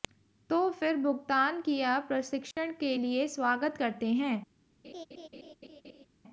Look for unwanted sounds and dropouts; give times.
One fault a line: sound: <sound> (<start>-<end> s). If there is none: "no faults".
sound: dropout (2.5-2.6 s)
sound: laugh (4.8-6.1 s)